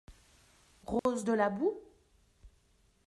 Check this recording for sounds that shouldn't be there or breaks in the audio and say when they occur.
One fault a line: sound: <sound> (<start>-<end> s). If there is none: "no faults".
sound: dropout (1.0-1.1 s)